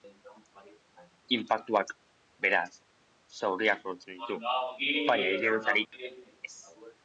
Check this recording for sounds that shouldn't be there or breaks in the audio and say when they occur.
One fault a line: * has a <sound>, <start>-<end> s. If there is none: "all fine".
* has a dropout, 5.8-5.9 s